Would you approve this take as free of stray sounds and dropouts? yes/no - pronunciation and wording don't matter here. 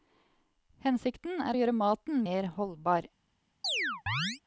no